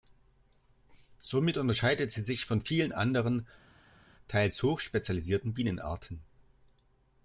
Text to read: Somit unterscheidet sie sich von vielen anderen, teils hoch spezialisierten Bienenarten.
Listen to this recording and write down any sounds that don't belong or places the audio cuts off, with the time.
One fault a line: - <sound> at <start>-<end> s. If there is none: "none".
none